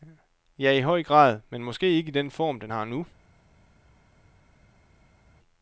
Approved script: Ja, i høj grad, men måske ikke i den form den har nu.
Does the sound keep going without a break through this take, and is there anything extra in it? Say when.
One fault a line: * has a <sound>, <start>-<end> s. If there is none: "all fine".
all fine